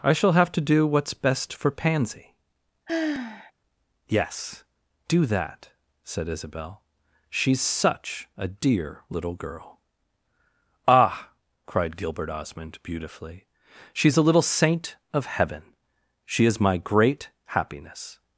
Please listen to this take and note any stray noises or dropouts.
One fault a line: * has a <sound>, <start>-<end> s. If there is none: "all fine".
* has a sigh, 2.9-3.5 s